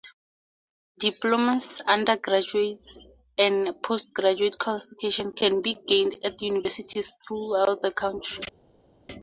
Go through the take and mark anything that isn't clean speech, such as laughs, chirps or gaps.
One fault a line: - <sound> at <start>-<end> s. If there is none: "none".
none